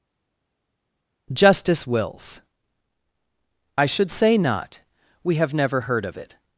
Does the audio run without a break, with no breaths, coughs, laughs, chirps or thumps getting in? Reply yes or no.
yes